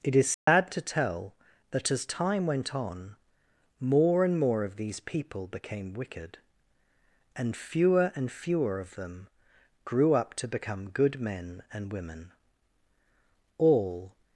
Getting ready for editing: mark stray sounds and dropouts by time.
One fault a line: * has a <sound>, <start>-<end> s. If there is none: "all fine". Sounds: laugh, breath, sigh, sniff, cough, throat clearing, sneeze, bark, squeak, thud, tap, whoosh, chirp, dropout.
* has a dropout, 0.3-0.5 s